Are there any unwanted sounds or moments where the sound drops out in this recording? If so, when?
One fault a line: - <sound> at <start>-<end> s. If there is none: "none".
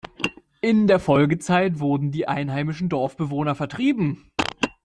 none